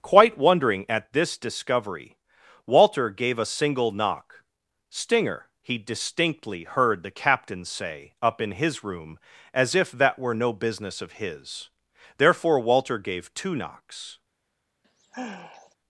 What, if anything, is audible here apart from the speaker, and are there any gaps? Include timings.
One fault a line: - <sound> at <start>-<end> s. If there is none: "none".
- sigh at 14.8-15.8 s